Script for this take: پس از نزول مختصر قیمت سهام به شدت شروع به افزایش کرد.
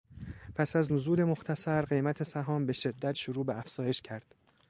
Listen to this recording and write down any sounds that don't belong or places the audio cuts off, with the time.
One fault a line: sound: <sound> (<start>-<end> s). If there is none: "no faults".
no faults